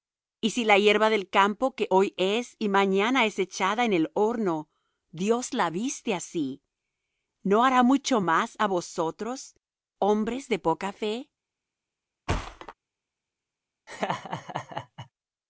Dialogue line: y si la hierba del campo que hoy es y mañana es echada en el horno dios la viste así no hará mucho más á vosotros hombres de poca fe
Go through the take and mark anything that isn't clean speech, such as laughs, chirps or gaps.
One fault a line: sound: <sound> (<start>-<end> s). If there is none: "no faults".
sound: thud (12.3-12.7 s)
sound: laugh (13.9-15.1 s)